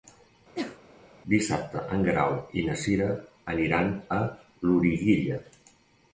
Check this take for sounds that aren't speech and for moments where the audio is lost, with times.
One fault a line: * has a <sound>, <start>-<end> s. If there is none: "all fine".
* has a sneeze, 0.6-0.8 s